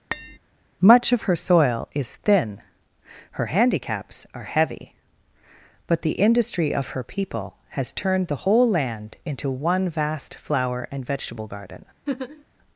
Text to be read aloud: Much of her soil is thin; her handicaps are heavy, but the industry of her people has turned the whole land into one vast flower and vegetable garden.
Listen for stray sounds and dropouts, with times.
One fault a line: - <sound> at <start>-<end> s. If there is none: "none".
- tap at 0.1-0.4 s
- laugh at 12.1-12.4 s